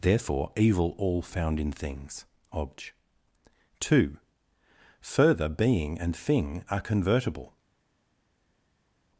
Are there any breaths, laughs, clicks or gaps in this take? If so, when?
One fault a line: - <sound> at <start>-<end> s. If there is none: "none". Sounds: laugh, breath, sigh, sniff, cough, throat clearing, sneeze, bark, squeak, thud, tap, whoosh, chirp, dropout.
none